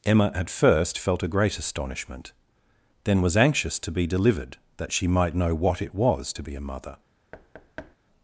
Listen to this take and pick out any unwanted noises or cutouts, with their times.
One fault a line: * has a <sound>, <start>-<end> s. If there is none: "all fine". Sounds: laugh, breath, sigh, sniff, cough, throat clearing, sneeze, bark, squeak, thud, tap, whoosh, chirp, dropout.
* has a thud, 7.3-8.0 s